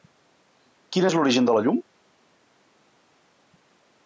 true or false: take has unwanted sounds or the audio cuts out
false